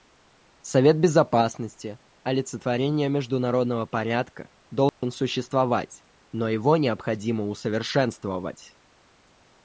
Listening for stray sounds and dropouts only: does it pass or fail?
fail